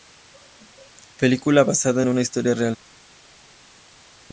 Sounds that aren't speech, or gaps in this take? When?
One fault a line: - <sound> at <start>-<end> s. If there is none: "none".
none